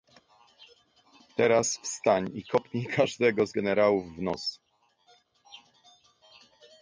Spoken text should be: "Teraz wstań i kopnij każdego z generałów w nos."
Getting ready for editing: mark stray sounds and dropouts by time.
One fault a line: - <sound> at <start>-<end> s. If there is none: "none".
none